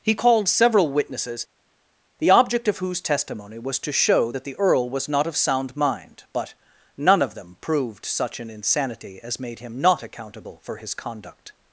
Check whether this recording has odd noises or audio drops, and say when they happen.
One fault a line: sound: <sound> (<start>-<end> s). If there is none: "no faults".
no faults